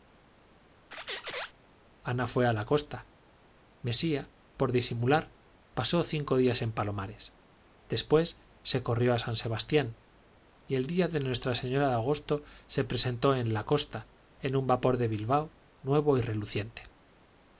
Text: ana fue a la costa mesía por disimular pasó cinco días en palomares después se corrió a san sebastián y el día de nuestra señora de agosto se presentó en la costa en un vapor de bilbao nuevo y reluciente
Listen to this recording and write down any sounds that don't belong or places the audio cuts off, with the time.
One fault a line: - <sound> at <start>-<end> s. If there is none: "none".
- squeak at 0.9-1.5 s